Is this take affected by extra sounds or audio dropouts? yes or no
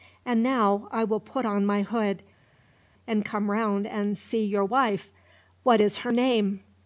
no